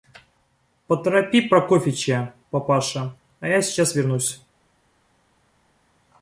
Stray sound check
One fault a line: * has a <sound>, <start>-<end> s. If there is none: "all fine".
all fine